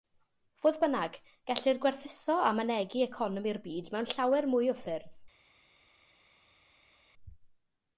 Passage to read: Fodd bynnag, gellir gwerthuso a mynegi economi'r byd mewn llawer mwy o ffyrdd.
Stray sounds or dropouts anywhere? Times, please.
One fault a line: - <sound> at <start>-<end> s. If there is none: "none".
none